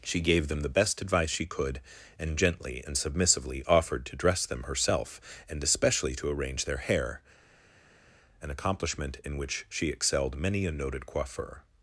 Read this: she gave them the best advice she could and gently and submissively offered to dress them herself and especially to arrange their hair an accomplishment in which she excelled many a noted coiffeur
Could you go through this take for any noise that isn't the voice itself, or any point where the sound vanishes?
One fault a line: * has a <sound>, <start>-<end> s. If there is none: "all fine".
all fine